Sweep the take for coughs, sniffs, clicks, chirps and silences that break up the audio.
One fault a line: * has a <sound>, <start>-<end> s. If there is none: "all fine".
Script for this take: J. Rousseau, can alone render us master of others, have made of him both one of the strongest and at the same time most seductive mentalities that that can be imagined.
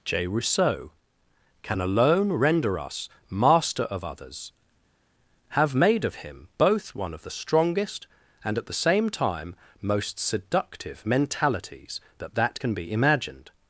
all fine